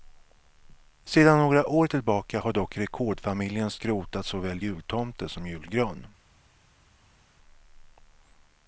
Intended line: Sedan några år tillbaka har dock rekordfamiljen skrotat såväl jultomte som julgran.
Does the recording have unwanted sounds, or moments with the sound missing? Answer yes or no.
no